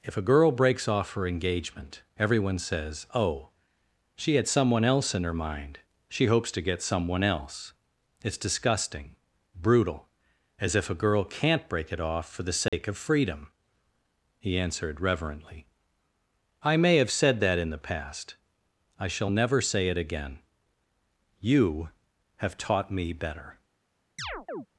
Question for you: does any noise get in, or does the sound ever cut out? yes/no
yes